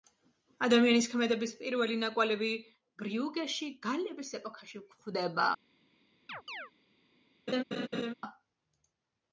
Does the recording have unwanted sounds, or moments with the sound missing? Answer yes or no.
yes